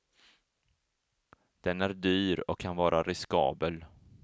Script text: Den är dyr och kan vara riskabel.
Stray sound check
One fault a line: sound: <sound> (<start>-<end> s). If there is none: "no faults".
no faults